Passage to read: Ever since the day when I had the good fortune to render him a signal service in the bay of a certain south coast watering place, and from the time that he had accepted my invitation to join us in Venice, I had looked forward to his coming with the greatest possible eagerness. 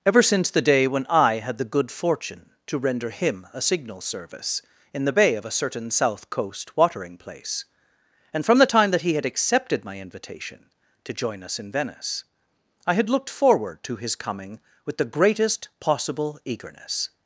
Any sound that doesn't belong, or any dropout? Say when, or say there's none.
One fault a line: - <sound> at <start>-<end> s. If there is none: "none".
none